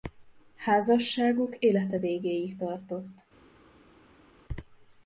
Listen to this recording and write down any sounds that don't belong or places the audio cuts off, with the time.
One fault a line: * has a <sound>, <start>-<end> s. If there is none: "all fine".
all fine